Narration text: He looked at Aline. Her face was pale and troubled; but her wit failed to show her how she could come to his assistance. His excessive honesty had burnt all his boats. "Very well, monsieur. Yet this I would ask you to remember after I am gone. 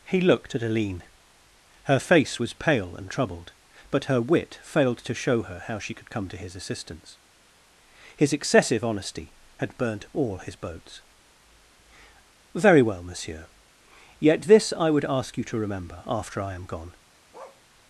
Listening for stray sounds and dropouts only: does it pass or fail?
fail